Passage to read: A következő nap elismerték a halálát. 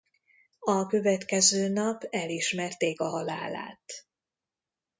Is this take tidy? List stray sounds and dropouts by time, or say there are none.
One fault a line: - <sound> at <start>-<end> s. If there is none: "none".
none